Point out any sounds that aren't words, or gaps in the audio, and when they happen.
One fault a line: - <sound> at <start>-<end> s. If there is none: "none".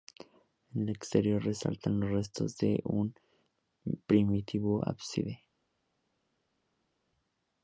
none